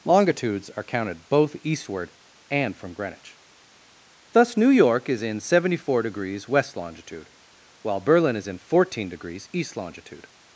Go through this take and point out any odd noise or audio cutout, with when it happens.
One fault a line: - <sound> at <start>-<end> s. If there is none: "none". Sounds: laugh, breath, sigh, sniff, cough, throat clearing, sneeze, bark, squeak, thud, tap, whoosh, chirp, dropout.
none